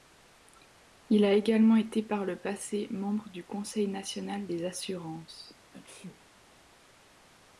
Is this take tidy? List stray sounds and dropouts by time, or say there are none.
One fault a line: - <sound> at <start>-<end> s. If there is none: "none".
- sneeze at 5.7-6.2 s